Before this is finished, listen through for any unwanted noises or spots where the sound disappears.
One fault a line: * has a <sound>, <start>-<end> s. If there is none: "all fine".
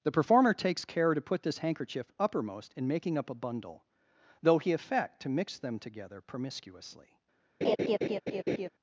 * has a laugh, 7.6-8.7 s